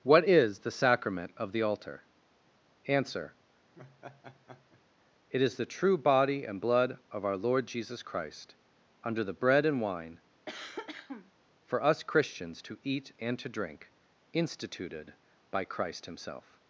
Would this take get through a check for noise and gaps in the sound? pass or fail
fail